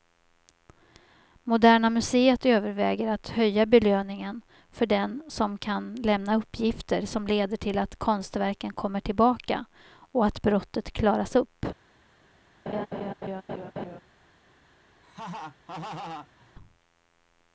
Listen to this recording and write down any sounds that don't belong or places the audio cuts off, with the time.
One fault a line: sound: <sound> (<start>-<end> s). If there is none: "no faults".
sound: laugh (12.7-14.0 s)
sound: laugh (15.0-16.5 s)